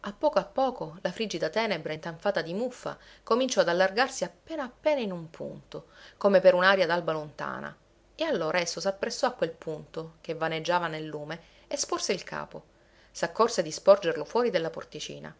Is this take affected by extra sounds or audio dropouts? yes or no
no